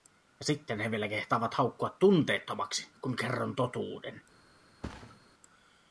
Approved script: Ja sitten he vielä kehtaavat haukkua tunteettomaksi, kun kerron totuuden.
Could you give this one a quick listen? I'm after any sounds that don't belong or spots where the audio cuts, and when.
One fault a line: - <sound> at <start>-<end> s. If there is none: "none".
- thud at 4.8-5.2 s